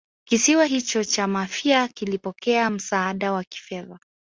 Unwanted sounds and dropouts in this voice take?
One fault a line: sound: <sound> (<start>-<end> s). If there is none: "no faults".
no faults